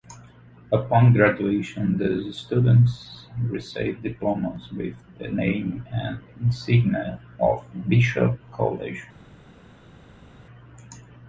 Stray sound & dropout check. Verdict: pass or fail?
pass